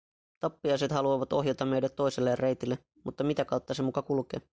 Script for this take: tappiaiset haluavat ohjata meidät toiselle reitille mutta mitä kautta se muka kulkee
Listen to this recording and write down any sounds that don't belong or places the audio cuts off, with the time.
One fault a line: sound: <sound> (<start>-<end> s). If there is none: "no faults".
no faults